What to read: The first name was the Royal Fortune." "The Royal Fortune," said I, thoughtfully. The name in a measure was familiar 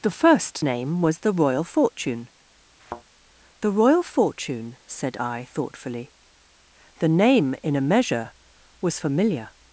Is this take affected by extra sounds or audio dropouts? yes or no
yes